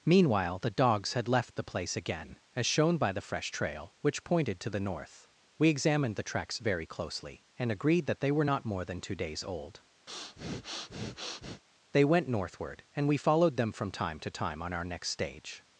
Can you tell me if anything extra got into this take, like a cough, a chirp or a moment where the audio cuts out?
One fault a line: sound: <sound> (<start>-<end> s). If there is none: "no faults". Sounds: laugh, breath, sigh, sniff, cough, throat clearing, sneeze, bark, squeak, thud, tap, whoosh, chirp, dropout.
sound: breath (10.1-11.6 s)